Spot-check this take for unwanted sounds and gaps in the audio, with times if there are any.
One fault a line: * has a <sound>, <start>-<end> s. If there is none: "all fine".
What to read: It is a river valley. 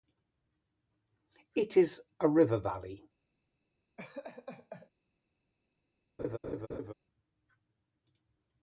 * has a laugh, 4.0-4.9 s
* has a laugh, 6.2-6.9 s